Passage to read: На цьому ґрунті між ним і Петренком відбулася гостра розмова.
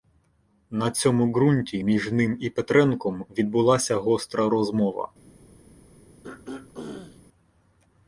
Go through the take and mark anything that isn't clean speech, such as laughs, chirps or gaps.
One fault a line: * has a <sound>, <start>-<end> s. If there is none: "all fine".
* has a throat clearing, 6.2-7.2 s